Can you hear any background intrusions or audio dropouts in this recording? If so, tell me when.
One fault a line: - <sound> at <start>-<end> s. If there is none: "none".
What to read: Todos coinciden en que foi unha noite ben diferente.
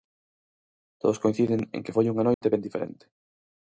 - dropout at 2.3-2.4 s